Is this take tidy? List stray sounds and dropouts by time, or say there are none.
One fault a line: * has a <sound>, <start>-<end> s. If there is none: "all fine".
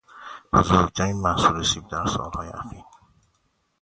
all fine